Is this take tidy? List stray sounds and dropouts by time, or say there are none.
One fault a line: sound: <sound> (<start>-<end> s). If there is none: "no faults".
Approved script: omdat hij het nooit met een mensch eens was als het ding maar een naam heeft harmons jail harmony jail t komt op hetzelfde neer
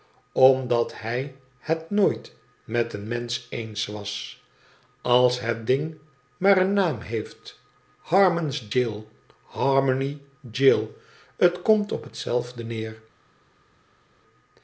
no faults